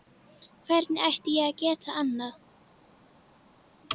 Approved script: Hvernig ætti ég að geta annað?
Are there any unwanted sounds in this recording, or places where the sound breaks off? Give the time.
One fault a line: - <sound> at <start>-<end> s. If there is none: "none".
none